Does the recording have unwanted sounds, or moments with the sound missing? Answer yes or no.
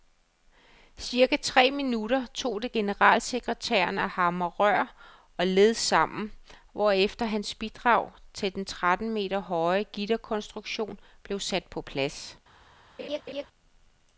yes